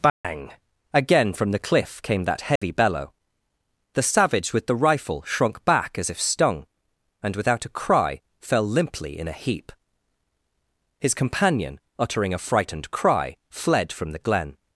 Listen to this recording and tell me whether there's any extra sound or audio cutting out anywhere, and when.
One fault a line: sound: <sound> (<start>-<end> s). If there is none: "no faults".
sound: dropout (0.1-0.2 s)
sound: dropout (2.6-2.6 s)